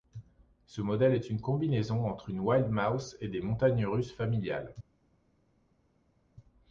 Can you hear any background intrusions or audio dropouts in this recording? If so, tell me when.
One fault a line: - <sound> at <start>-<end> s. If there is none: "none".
none